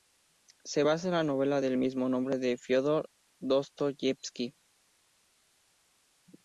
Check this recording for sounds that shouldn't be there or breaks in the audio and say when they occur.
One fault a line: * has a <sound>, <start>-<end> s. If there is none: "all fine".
all fine